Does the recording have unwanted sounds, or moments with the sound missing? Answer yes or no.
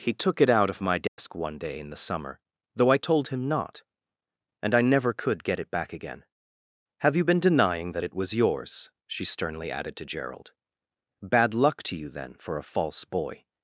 yes